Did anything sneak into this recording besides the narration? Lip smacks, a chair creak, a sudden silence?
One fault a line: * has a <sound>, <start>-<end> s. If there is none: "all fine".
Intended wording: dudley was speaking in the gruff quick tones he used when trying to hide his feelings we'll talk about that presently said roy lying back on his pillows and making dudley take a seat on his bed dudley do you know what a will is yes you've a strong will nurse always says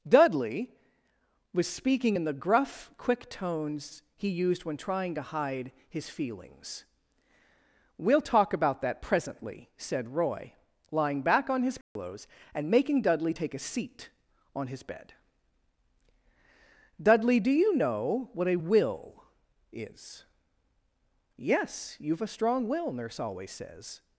* has a dropout, 11.8-12.0 s